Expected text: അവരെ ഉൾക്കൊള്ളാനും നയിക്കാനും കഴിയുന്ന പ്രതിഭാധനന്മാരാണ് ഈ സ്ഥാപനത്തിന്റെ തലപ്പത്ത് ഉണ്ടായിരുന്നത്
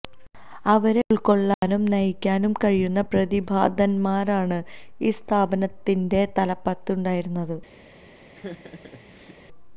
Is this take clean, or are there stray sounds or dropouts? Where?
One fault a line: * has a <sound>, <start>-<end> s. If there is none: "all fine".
* has a dropout, 1.5-1.6 s
* has a laugh, 8.3-9.4 s